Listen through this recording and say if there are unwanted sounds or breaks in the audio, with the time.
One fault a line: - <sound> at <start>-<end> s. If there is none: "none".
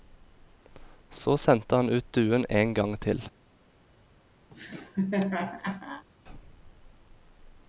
- laugh at 4.5-6.0 s